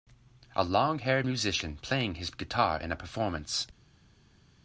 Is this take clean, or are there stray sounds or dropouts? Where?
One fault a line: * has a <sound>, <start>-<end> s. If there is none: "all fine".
all fine